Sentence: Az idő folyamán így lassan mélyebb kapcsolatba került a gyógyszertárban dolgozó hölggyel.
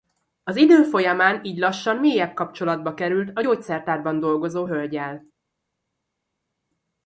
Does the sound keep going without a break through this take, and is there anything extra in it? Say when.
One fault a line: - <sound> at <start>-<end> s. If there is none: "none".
none